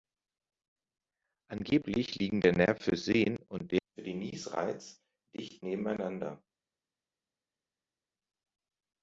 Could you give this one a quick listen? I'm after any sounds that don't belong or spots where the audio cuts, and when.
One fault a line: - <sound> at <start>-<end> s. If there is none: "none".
none